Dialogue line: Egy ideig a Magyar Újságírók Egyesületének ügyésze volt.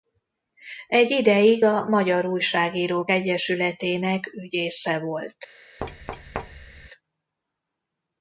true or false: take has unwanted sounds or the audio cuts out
true